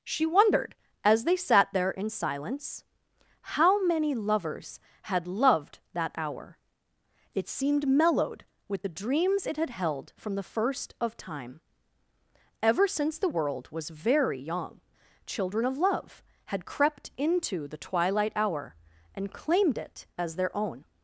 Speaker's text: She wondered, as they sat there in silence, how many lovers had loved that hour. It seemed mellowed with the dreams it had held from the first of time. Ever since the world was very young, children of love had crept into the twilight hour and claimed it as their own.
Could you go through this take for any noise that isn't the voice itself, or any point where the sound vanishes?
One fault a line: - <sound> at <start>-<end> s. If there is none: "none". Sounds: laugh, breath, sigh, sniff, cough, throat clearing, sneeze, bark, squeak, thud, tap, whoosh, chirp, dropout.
none